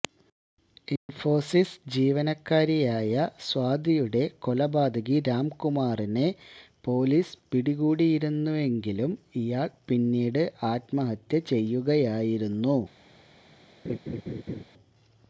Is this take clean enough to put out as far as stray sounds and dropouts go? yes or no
no